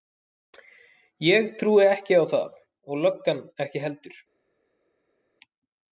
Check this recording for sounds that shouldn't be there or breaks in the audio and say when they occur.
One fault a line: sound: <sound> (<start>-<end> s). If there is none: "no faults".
no faults